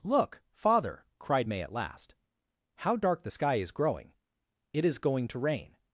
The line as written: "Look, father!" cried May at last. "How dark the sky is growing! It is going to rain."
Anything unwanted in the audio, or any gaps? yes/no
no